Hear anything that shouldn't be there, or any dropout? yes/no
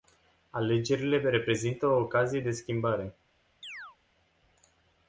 yes